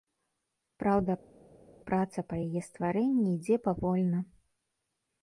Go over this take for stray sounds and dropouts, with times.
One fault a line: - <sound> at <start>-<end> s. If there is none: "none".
none